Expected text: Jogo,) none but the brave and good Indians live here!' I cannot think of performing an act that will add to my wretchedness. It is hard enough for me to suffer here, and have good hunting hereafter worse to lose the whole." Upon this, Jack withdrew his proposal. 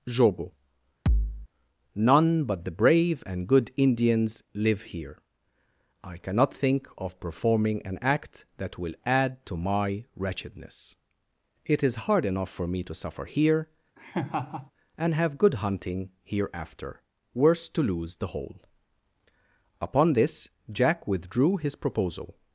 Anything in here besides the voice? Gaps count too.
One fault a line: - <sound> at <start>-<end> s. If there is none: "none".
- thud at 1.1-1.5 s
- laugh at 14.0-14.7 s